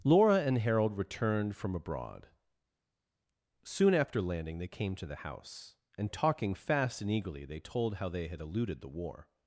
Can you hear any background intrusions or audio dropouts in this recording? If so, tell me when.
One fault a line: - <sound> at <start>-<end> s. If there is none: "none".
none